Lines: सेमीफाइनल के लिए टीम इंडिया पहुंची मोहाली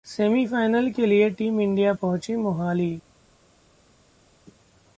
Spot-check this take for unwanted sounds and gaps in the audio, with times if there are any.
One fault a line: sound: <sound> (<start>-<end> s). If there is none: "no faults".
no faults